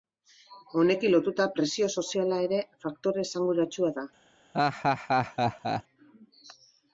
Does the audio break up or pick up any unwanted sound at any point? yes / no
yes